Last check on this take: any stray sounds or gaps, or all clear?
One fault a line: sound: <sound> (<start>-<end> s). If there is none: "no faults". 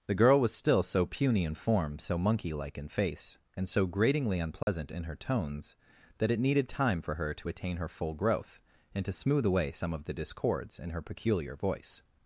sound: dropout (4.6-4.7 s)